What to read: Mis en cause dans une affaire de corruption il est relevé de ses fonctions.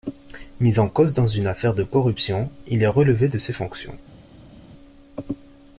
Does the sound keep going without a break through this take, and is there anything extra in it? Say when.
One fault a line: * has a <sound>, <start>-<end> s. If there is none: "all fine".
all fine